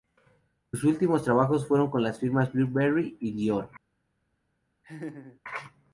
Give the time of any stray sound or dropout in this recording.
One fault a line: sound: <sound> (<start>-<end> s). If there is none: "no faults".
sound: laugh (4.8-5.4 s)